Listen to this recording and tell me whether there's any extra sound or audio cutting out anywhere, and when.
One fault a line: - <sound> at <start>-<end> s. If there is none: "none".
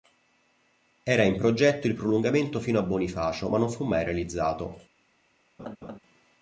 - laugh at 5.6-6.0 s